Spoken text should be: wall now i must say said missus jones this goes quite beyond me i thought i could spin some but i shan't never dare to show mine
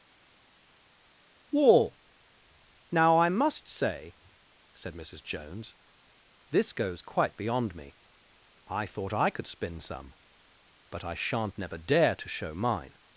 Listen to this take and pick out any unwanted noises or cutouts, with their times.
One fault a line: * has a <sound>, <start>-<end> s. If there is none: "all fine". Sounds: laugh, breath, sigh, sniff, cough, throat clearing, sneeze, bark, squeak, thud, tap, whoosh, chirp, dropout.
all fine